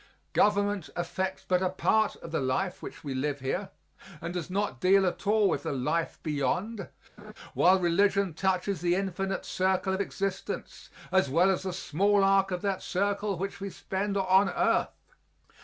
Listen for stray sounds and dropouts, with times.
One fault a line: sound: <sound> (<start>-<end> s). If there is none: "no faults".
sound: laugh (7.2-7.3 s)